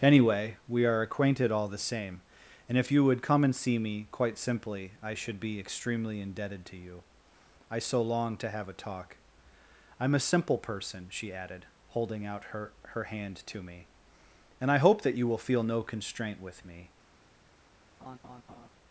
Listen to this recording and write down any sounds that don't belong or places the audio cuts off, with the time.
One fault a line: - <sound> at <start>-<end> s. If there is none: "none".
- laugh at 18.0-18.7 s